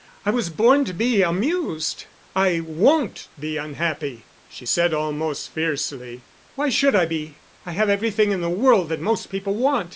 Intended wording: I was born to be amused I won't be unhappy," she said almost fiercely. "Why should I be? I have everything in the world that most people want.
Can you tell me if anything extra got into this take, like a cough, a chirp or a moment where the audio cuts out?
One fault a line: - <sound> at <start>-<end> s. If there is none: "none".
none